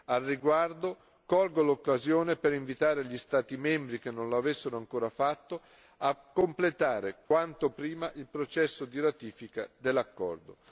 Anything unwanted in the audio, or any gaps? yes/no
yes